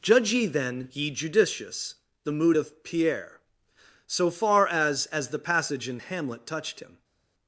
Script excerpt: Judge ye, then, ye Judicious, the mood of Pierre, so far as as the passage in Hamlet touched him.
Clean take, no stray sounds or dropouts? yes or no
yes